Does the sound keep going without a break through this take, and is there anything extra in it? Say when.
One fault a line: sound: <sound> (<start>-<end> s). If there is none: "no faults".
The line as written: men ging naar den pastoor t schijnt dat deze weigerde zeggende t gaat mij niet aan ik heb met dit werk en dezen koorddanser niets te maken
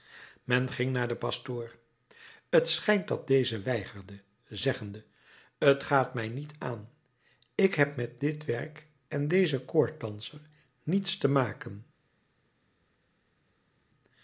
no faults